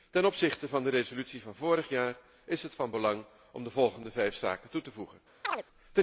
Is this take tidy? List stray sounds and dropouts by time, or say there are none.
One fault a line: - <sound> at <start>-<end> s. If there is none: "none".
- chirp at 5.4-5.6 s